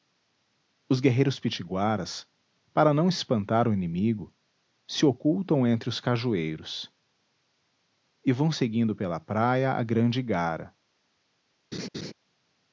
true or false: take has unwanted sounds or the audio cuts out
true